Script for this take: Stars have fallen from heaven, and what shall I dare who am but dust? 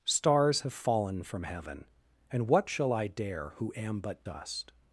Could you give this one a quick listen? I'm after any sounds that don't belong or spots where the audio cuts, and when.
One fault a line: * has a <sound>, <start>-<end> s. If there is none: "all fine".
all fine